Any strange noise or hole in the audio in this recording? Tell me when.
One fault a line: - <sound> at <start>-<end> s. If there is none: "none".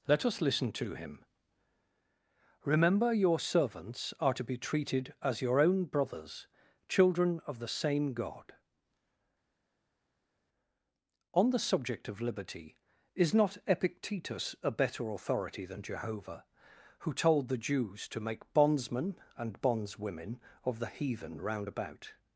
none